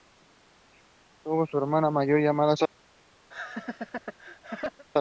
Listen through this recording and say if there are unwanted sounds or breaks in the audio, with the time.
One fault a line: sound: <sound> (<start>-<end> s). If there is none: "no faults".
sound: laugh (3.3-4.8 s)